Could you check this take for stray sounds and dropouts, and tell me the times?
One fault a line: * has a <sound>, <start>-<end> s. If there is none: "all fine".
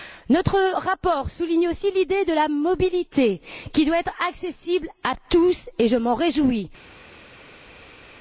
all fine